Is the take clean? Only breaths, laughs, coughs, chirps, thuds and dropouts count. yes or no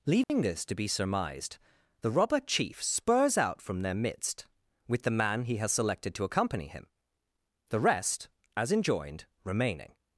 no